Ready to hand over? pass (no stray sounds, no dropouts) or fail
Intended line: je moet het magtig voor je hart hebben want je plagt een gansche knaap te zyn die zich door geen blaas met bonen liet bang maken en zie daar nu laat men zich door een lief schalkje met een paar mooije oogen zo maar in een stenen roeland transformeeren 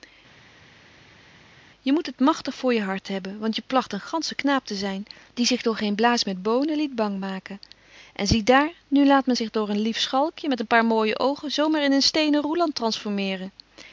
pass